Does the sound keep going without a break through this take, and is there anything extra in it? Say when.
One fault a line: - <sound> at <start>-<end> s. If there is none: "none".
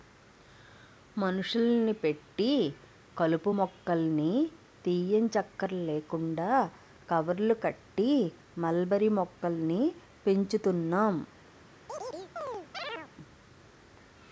- chirp at 11.9-13.1 s